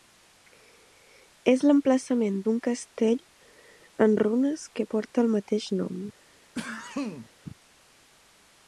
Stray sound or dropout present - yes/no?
yes